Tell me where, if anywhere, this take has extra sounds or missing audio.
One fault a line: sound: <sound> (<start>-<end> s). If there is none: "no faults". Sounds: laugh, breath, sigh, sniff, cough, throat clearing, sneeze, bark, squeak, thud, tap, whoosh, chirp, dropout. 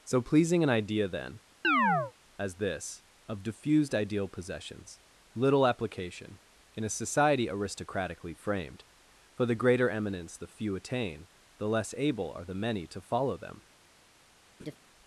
sound: chirp (1.6-2.1 s)
sound: laugh (14.6-14.8 s)